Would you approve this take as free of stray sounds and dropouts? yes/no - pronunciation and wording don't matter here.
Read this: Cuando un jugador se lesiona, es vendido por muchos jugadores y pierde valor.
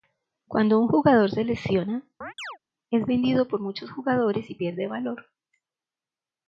no